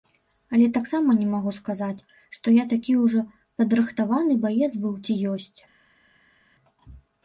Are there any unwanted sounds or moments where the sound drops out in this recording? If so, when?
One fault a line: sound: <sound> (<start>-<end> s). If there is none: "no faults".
no faults